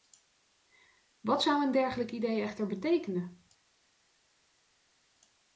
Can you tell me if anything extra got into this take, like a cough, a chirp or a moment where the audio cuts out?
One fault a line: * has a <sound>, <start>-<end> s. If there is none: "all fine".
all fine